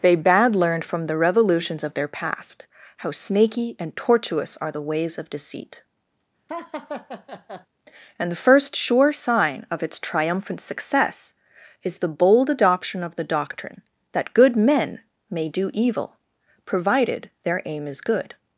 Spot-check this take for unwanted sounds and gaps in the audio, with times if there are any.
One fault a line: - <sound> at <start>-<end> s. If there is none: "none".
- laugh at 6.5-7.7 s